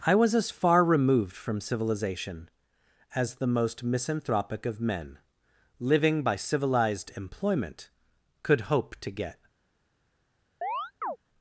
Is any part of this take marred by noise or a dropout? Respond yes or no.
yes